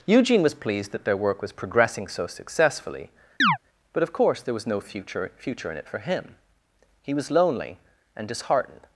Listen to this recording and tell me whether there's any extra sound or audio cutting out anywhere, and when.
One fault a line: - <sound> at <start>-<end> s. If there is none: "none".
- chirp at 3.4-3.6 s